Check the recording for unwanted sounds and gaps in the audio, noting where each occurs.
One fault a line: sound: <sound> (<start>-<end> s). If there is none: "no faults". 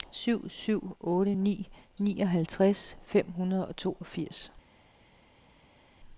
no faults